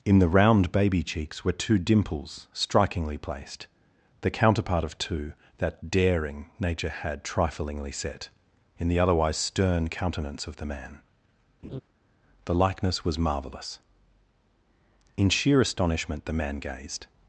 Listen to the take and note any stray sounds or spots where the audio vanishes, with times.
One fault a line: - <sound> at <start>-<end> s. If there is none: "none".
- laugh at 11.6-11.8 s